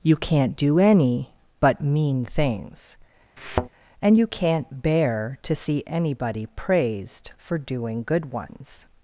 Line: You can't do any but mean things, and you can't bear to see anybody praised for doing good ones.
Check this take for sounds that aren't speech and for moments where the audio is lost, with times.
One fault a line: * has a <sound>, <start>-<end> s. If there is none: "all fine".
* has a thud, 3.4-3.7 s